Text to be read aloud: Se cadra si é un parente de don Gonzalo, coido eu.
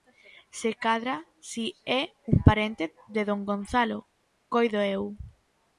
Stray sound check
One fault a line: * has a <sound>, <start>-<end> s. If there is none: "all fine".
all fine